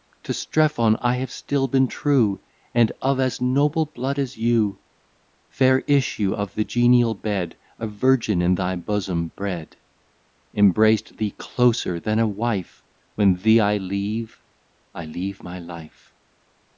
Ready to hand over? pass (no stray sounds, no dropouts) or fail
pass